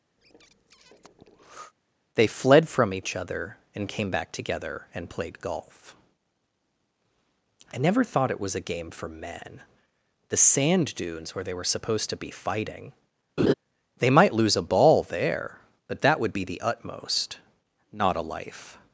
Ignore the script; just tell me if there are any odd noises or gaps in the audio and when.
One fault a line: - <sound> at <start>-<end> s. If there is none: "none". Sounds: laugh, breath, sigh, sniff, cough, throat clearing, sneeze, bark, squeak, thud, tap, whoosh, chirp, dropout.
- breath at 0.2-1.7 s
- laugh at 13.4-13.5 s